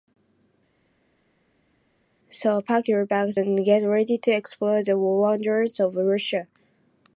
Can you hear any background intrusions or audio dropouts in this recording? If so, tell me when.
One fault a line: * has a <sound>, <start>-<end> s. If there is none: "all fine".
all fine